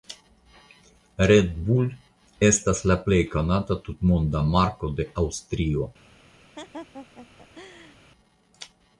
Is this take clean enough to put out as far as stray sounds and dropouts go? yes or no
no